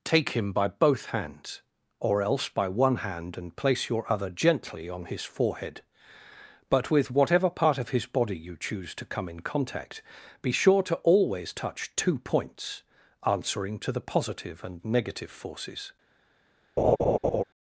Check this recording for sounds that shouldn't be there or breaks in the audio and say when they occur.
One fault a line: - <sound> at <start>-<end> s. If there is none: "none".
- laugh at 16.8-17.4 s